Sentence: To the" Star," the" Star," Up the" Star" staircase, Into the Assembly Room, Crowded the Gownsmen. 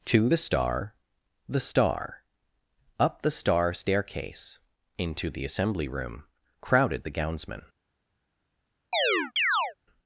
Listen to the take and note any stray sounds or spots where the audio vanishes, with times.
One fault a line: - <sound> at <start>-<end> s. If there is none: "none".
- chirp at 8.9-9.7 s